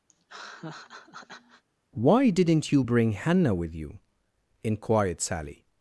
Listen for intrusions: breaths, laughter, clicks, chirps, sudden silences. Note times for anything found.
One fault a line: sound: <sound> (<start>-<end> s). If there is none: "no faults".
sound: laugh (0.1-1.6 s)